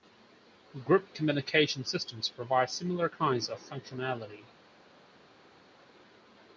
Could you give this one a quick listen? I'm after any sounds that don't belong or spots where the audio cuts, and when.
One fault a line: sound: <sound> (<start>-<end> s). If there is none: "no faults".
no faults